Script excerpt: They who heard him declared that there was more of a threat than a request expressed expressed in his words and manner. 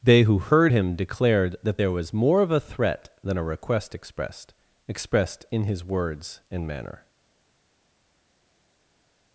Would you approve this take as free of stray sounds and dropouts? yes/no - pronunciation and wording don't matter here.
yes